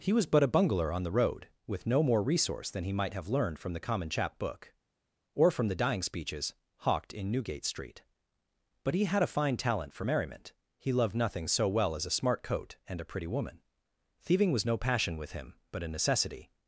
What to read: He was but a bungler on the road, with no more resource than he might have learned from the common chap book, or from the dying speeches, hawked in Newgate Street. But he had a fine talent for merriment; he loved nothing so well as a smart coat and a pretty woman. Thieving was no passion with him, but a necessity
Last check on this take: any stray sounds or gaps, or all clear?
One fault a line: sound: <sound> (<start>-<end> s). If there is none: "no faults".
no faults